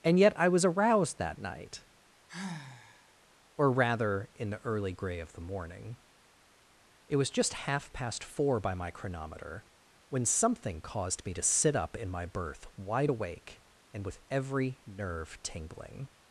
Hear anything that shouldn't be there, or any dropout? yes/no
yes